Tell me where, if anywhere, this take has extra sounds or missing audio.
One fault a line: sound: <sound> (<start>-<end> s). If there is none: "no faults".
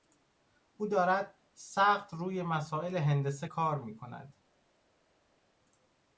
no faults